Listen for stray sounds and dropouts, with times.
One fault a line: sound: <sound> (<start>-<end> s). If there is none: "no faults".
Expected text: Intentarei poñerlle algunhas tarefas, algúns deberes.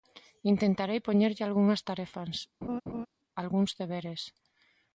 sound: laugh (2.6-3.1 s)